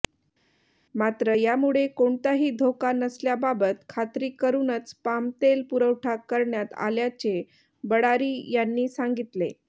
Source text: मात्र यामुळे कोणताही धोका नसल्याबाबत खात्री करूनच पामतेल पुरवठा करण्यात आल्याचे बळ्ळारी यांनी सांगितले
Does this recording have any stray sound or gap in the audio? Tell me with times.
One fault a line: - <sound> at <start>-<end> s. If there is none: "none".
none